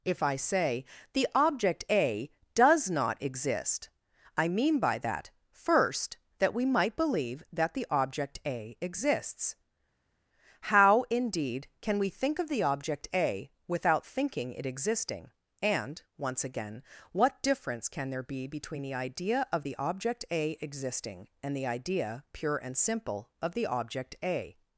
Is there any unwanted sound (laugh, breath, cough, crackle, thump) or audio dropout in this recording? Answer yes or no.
no